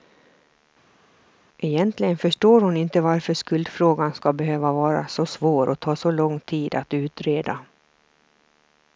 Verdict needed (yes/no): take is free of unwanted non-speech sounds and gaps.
yes